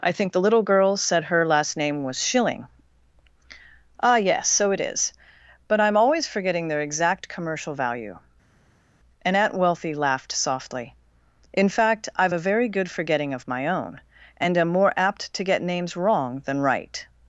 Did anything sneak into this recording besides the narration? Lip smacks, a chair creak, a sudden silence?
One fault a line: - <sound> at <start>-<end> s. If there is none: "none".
none